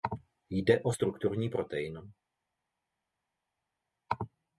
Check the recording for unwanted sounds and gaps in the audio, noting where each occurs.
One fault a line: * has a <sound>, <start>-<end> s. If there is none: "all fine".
all fine